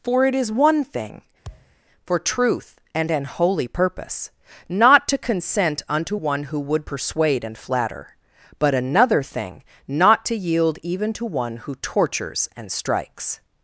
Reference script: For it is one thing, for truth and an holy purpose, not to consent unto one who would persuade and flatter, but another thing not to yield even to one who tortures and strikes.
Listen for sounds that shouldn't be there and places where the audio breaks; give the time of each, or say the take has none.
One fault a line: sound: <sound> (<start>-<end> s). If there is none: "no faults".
sound: thud (1.4-1.8 s)